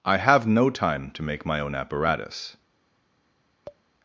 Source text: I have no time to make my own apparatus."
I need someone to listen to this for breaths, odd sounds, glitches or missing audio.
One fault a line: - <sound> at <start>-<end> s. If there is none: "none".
- tap at 3.7-3.8 s